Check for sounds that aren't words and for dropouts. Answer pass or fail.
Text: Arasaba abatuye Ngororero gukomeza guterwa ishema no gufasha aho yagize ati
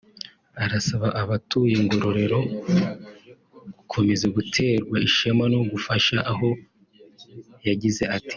pass